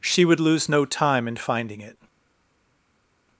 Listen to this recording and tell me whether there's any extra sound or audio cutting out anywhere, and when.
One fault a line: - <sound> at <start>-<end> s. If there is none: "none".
none